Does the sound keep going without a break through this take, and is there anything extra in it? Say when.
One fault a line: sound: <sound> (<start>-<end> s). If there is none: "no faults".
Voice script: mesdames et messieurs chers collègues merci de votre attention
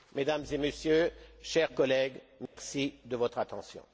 sound: dropout (2.5-2.6 s)